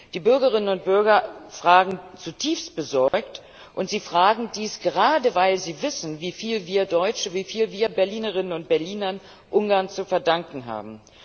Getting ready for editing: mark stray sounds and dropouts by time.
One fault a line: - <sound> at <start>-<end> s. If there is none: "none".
- dropout at 3.1-3.1 s